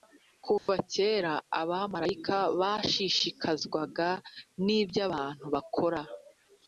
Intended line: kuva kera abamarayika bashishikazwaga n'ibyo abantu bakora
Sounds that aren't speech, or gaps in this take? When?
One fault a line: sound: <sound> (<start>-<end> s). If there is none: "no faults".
sound: dropout (0.6-0.7 s)